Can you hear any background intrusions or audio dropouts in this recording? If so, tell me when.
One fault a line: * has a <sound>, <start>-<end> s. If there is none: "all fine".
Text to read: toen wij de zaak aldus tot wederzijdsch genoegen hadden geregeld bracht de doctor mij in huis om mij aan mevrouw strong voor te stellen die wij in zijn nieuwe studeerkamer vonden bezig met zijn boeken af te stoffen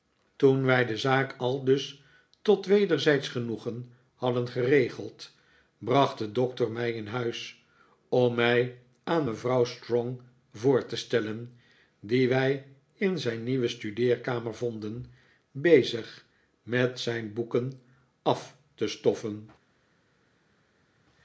all fine